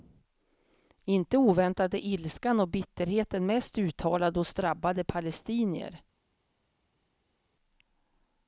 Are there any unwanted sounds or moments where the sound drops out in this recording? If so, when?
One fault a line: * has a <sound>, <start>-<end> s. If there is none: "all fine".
all fine